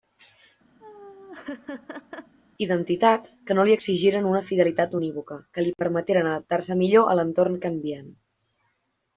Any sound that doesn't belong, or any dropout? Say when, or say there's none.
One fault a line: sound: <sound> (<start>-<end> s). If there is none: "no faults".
sound: laugh (0.8-2.4 s)